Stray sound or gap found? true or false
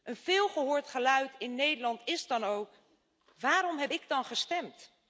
false